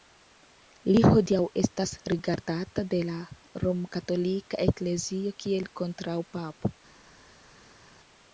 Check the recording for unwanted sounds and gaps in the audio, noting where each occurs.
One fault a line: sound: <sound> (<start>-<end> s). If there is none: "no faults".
no faults